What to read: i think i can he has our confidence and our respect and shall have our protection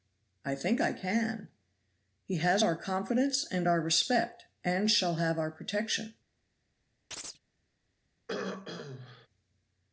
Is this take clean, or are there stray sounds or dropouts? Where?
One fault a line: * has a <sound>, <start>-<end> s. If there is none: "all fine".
* has a chirp, 7.1-7.4 s
* has a throat clearing, 8.3-9.3 s